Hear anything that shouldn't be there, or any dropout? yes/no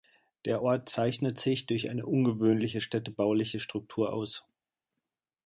no